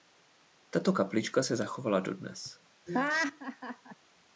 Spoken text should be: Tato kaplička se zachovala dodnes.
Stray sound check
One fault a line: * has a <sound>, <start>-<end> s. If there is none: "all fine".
* has a laugh, 2.9-4.0 s